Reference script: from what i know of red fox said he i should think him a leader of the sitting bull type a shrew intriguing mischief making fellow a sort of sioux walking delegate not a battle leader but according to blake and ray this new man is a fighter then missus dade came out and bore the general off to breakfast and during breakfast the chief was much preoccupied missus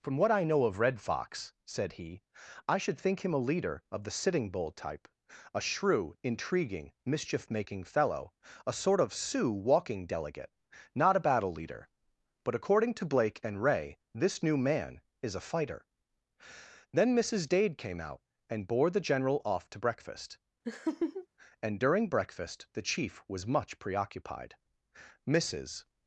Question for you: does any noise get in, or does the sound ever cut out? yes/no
yes